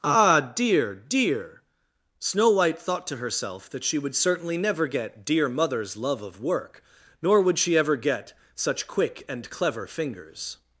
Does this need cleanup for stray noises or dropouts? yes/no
no